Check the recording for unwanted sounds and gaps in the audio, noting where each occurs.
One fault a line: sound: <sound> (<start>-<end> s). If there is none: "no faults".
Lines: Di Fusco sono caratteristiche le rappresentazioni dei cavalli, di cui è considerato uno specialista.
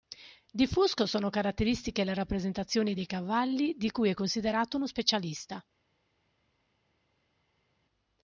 no faults